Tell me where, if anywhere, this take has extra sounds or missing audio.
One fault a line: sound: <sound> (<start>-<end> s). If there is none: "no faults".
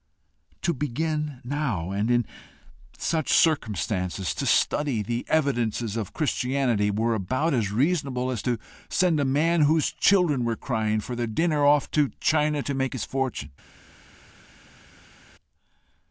no faults